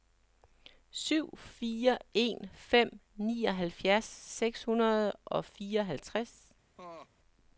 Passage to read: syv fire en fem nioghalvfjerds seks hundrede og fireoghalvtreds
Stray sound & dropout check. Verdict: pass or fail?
fail